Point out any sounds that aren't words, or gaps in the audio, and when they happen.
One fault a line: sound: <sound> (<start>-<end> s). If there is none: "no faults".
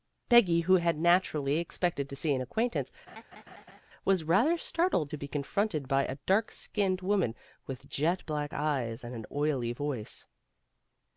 sound: laugh (3.1-3.8 s)